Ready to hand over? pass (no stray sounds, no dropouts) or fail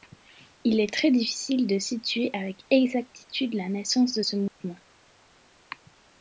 fail